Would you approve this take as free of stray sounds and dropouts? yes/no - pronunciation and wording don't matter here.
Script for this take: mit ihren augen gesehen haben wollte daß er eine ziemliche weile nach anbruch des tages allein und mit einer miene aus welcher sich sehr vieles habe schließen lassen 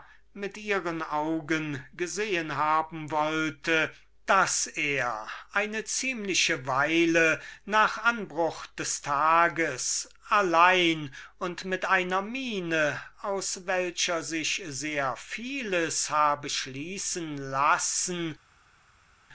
yes